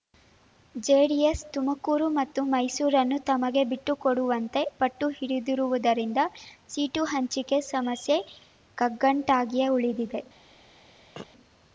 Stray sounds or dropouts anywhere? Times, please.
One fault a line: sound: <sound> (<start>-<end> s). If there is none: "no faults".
sound: throat clearing (11.2-11.3 s)